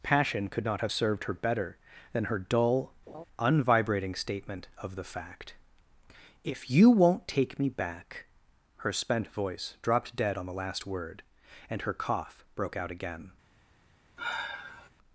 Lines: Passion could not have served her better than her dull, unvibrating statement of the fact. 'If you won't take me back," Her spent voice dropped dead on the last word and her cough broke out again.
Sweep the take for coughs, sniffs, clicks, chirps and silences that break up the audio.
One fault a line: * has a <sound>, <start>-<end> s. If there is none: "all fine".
* has a laugh, 3.1-3.2 s
* has a sigh, 14.2-14.9 s